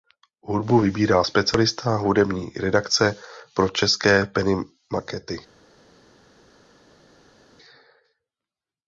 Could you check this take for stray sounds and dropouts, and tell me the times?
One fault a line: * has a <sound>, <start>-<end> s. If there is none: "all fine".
all fine